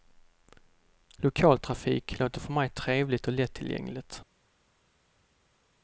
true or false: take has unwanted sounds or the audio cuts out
false